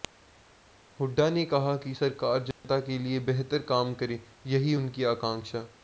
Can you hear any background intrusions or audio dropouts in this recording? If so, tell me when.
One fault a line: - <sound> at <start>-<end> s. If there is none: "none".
- dropout at 2.5-2.6 s